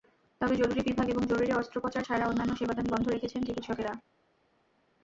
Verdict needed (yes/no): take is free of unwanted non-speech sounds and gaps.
yes